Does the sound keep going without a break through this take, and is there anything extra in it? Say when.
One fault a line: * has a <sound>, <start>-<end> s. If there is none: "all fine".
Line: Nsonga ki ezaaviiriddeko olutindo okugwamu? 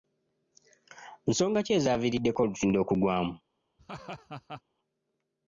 * has a laugh, 3.8-4.6 s